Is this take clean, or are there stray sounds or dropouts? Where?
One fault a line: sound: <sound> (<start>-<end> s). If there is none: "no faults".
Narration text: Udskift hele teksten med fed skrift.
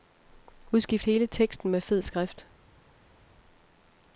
no faults